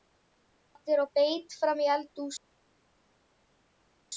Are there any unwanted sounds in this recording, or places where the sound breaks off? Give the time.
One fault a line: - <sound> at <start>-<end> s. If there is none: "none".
none